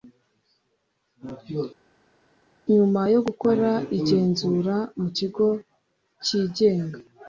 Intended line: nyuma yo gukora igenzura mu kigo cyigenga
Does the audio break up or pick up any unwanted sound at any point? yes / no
no